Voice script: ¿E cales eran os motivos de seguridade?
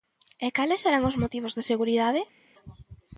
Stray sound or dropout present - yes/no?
no